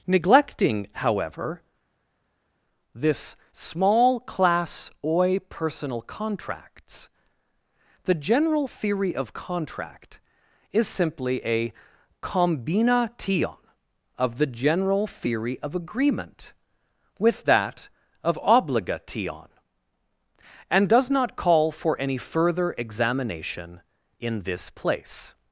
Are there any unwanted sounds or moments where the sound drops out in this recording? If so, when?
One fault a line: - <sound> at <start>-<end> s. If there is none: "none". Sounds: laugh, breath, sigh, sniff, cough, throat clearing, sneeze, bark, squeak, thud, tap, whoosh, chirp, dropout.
none